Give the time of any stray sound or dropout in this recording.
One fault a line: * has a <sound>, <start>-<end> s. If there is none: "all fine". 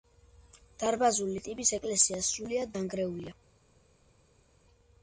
all fine